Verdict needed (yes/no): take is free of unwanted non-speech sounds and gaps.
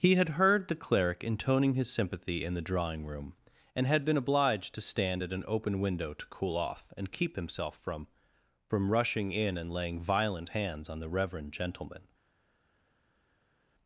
yes